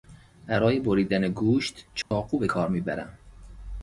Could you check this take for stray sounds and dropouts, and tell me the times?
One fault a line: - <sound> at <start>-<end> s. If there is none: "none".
- dropout at 2.0-2.1 s